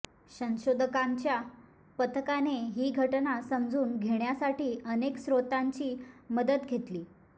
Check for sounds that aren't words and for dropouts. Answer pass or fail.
pass